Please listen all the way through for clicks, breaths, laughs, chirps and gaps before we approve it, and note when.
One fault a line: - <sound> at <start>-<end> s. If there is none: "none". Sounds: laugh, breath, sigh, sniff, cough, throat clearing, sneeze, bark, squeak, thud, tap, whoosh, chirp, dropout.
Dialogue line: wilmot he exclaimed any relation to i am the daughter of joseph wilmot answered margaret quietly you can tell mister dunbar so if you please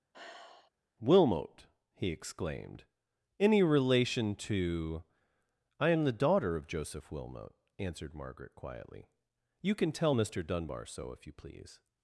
- sigh at 0.1-0.7 s